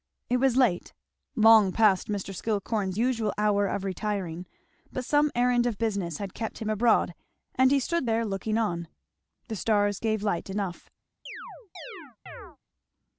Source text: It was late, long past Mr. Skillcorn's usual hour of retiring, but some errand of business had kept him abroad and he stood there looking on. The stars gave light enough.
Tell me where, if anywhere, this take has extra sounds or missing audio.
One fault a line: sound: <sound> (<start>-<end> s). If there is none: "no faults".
sound: chirp (11.3-12.6 s)